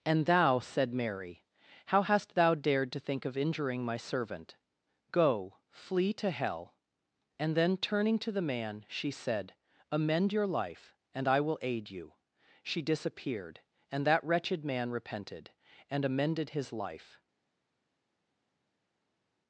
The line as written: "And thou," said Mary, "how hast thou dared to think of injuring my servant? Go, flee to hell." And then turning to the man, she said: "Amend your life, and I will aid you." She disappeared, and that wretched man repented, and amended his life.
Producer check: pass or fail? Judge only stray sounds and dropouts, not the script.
pass